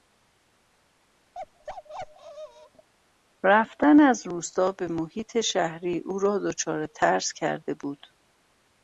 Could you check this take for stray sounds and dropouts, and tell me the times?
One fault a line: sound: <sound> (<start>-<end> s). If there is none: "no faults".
sound: bark (1.3-2.9 s)